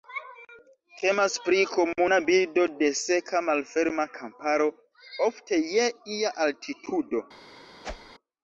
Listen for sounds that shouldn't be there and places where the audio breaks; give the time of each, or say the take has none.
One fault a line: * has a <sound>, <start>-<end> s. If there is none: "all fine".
* has a whoosh, 7.8-8.1 s